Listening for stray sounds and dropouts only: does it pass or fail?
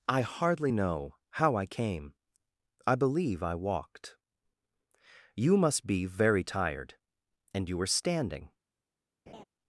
fail